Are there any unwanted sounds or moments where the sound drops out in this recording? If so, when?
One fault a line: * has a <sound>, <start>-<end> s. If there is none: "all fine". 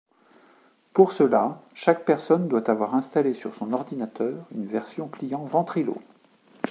all fine